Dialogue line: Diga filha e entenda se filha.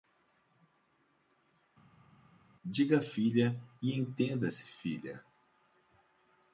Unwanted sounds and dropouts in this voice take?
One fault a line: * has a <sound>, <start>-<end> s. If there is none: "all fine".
all fine